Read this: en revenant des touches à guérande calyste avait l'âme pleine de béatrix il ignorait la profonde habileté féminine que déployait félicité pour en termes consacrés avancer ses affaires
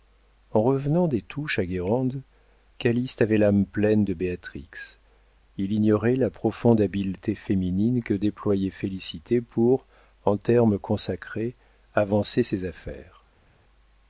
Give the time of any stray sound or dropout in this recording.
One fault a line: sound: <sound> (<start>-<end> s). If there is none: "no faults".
no faults